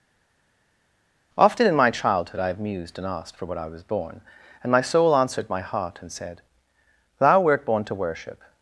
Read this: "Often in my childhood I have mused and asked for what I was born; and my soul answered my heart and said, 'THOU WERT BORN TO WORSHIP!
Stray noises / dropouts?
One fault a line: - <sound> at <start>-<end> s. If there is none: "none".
none